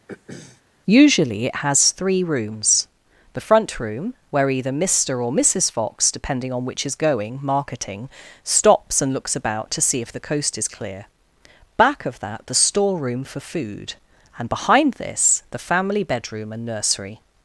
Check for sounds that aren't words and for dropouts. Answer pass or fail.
fail